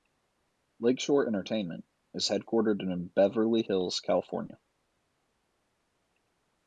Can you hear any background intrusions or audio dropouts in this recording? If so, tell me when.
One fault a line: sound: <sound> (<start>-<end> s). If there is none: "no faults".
no faults